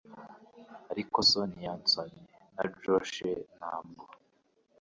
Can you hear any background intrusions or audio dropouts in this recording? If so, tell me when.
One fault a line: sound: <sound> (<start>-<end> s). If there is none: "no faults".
no faults